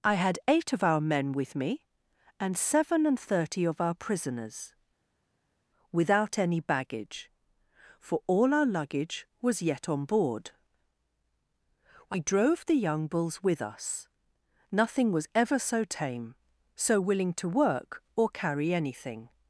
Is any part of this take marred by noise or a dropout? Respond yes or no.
no